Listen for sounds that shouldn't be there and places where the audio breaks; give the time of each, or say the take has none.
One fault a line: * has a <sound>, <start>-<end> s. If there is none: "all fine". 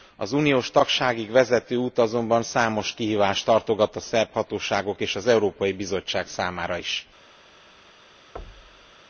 * has a thud, 8.4-8.9 s